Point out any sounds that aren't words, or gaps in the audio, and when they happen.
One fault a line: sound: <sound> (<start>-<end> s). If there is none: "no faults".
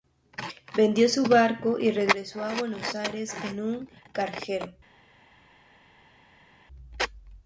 no faults